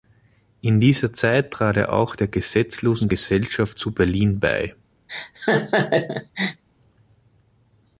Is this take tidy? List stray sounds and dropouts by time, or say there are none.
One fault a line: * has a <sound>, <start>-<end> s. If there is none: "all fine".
* has a laugh, 5.1-6.6 s